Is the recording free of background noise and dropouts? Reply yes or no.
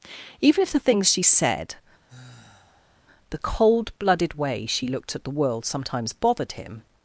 no